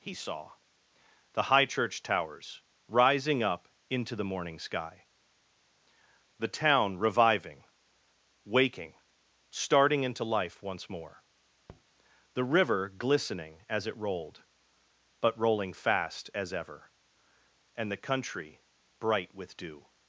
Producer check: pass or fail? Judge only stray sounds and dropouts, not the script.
fail